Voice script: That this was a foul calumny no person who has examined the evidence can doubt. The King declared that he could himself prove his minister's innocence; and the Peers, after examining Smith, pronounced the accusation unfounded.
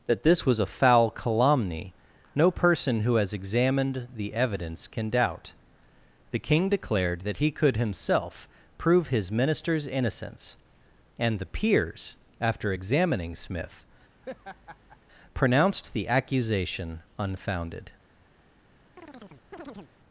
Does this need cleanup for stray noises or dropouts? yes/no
yes